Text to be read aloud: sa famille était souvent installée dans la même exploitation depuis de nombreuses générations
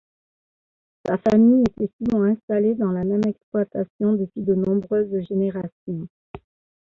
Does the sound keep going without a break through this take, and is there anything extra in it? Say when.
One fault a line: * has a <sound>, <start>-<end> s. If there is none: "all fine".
all fine